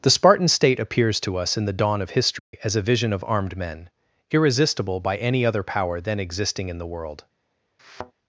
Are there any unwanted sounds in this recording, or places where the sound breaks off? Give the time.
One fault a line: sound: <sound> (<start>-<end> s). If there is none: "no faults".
sound: dropout (2.4-2.5 s)
sound: thud (7.8-8.1 s)